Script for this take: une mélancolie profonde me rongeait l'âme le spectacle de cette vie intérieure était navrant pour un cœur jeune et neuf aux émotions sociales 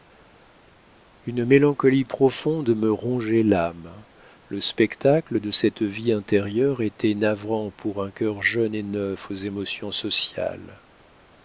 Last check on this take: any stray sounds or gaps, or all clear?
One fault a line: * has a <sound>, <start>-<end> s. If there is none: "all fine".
all fine